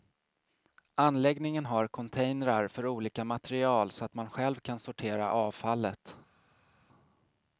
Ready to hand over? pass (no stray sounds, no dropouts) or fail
pass